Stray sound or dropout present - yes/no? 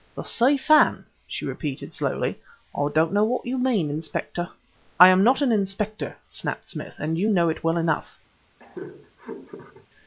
yes